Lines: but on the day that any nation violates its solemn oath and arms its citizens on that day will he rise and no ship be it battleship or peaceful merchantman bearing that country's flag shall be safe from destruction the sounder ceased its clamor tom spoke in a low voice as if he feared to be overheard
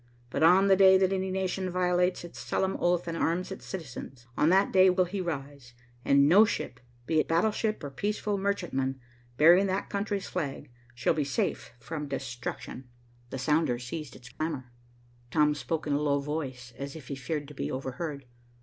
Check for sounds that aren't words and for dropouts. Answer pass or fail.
fail